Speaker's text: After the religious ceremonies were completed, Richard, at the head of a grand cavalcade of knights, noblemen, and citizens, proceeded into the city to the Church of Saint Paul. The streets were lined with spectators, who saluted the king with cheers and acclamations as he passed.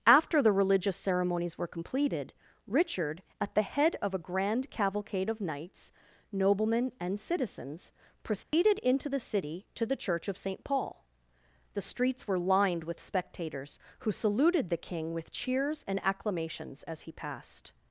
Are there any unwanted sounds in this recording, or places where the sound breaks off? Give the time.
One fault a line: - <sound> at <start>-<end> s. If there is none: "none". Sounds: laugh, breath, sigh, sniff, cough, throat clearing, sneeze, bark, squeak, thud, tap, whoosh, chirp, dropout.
- dropout at 8.4-8.5 s